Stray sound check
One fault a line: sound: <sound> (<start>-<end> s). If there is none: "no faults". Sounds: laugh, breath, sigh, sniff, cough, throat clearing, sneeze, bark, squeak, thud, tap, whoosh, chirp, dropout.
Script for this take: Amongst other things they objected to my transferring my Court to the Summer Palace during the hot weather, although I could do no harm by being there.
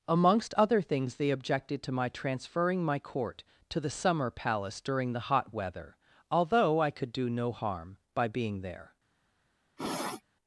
sound: sniff (9.8-10.2 s)